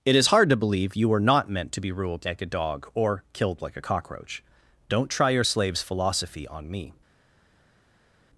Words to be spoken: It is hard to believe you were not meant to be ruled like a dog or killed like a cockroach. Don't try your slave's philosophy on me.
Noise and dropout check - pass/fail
pass